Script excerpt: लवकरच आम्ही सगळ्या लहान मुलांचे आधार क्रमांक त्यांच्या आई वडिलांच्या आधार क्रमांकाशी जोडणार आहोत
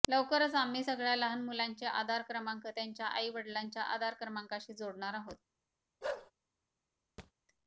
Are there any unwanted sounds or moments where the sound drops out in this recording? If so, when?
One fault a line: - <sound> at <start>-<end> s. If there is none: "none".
- bark at 6.0-6.3 s
- thud at 7.2-7.3 s